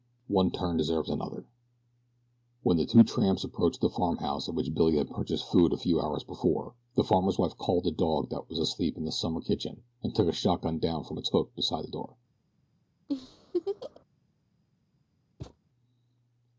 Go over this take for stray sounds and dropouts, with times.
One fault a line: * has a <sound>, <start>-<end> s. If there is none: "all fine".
* has a laugh, 13.1-14.0 s
* has a thud, 15.4-15.6 s